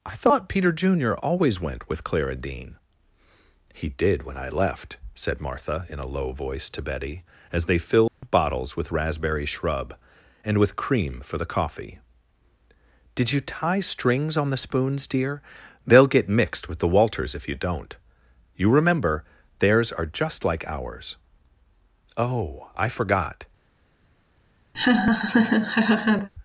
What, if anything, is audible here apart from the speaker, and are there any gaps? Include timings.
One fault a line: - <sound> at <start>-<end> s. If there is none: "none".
- dropout at 8.1-8.2 s
- laugh at 24.7-26.3 s